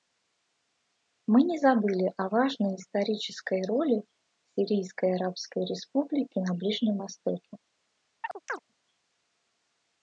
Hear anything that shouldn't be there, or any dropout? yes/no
yes